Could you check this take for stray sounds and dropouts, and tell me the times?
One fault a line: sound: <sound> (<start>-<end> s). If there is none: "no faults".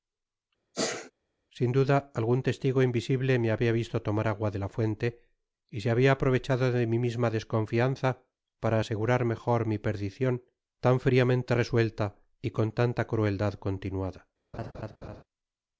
sound: sneeze (0.7-1.1 s)
sound: laugh (14.5-15.2 s)